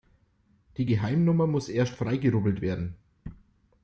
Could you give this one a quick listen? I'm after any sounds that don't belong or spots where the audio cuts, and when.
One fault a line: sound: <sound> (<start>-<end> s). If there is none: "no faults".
no faults